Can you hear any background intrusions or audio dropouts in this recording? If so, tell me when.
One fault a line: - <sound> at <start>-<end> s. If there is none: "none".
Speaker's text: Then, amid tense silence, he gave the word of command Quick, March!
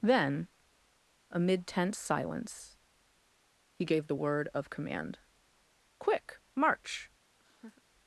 - laugh at 7.4-7.8 s